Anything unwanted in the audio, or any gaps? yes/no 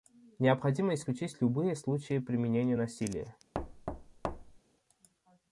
yes